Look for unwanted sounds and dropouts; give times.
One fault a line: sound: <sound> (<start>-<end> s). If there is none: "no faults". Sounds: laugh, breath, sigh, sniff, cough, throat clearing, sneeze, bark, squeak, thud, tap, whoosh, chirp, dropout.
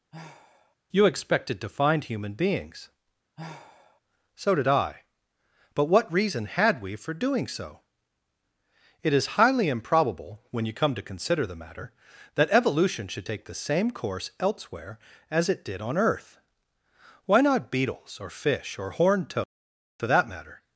sound: sigh (0.1-0.8 s)
sound: sigh (3.4-4.0 s)